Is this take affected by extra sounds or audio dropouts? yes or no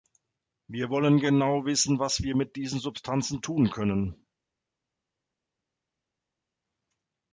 no